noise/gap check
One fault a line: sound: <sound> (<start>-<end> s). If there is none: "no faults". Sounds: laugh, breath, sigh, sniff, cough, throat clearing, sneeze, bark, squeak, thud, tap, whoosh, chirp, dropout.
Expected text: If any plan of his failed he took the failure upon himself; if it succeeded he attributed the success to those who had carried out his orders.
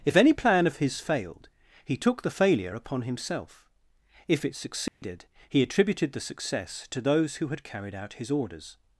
sound: dropout (4.9-5.0 s)